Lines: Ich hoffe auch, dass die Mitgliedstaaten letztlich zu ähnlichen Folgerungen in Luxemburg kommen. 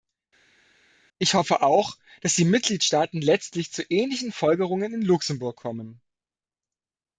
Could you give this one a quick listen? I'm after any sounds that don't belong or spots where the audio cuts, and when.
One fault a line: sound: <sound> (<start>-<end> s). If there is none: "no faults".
no faults